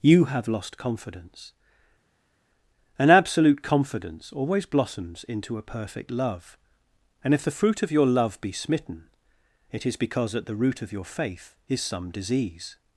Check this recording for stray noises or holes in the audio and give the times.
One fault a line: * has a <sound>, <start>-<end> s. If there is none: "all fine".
all fine